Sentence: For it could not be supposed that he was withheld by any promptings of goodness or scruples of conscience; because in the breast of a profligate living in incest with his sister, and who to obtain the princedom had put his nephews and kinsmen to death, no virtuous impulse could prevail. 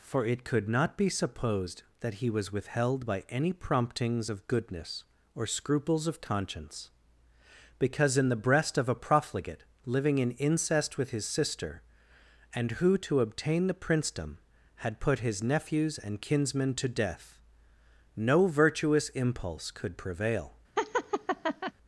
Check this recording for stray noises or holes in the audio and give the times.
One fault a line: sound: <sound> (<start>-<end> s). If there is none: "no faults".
sound: laugh (20.8-21.7 s)